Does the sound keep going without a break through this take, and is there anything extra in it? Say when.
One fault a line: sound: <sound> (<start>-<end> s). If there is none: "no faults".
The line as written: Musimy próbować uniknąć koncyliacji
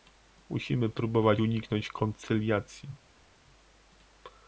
no faults